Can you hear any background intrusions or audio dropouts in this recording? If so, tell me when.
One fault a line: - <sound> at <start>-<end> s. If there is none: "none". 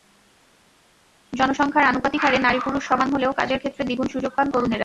none